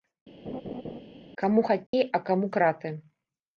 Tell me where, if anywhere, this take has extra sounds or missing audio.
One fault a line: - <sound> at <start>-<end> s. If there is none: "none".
- laugh at 0.4-1.0 s
- dropout at 1.9-1.9 s